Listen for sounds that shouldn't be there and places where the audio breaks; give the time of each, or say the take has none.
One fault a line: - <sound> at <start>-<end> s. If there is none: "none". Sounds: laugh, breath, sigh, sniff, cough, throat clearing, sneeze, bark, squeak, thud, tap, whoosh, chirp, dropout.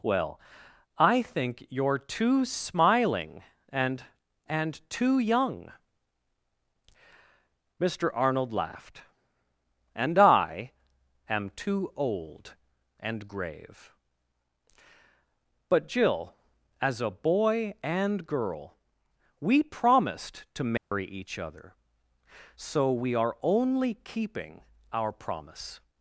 - dropout at 20.8-20.9 s